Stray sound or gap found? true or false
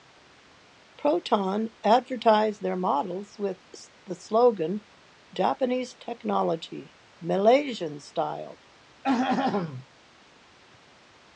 true